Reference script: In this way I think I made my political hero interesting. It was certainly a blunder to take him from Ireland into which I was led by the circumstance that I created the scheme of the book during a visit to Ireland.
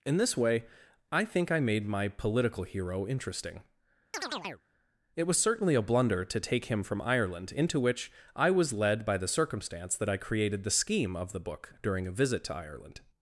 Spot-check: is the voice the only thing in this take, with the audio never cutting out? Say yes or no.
no